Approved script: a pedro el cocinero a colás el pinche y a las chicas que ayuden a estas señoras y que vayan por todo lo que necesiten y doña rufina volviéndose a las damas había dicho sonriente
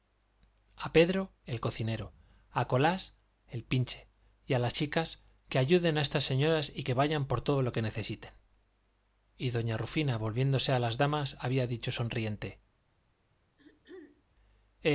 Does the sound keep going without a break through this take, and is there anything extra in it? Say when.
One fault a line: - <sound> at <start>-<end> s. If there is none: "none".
- throat clearing at 13.4-14.2 s